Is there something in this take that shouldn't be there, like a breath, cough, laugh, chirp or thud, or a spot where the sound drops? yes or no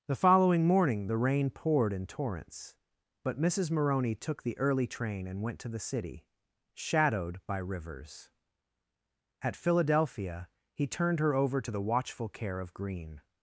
no